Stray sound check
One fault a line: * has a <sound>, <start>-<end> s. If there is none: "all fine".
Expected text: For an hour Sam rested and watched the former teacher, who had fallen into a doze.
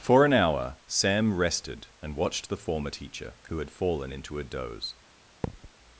* has a thud, 5.4-5.7 s